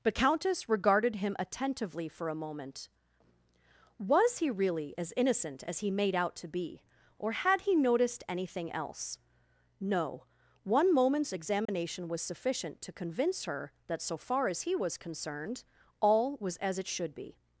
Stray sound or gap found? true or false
true